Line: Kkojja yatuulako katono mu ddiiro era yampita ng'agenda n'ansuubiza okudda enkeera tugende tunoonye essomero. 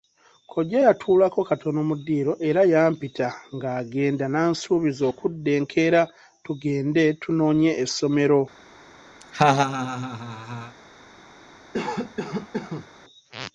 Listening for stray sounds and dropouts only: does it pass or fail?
fail